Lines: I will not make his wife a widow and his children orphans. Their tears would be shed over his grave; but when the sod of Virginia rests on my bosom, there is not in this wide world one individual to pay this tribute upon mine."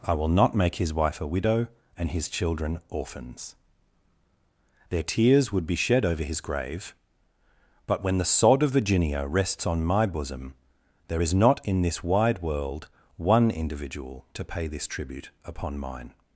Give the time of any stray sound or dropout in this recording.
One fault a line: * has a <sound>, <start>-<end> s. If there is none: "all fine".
all fine